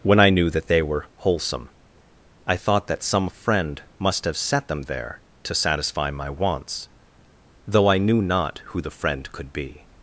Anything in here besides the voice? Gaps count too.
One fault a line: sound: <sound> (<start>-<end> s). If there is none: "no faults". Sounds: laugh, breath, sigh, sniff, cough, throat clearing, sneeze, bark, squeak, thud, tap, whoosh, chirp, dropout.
no faults